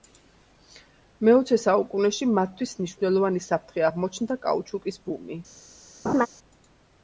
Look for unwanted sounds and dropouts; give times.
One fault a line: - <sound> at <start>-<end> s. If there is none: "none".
- laugh at 6.0-6.3 s